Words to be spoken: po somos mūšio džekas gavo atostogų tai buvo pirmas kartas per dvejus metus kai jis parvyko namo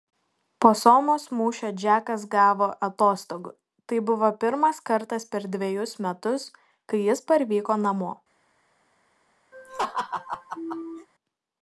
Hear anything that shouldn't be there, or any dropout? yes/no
yes